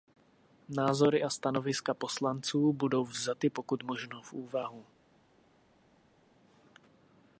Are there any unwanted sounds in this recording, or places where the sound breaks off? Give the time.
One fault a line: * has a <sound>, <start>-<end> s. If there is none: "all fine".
all fine